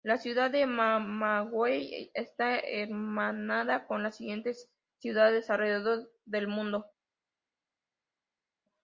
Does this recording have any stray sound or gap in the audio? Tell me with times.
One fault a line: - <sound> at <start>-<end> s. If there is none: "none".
none